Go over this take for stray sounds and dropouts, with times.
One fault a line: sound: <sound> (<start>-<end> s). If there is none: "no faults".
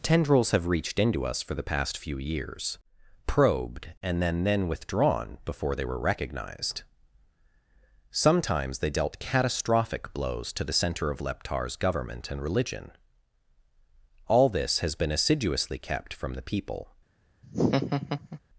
sound: laugh (17.4-18.4 s)